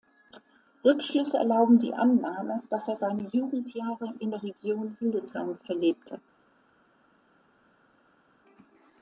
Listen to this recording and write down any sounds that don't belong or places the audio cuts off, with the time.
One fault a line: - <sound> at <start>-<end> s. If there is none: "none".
none